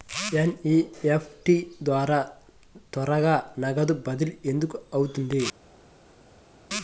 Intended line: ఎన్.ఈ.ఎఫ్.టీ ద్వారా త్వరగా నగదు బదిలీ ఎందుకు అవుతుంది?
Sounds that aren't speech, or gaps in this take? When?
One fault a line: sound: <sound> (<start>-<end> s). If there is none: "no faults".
no faults